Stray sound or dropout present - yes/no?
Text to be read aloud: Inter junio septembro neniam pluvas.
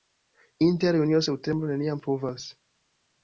no